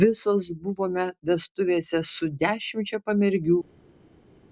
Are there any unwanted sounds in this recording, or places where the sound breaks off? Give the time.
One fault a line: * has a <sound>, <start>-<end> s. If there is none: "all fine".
all fine